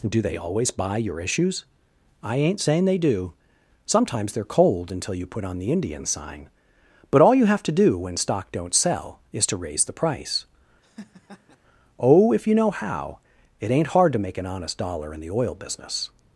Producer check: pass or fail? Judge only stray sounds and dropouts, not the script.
fail